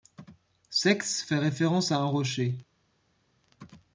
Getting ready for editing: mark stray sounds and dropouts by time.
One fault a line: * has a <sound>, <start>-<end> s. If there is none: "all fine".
all fine